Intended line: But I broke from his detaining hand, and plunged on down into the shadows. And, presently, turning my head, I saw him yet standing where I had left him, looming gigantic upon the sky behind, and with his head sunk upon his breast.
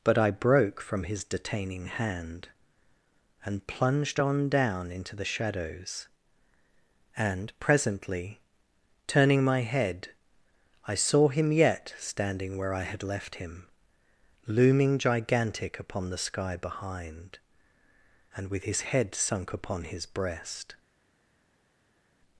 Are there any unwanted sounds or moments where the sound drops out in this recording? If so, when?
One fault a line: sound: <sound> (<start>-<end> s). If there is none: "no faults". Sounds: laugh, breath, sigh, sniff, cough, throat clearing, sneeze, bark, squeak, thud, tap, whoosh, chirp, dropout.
no faults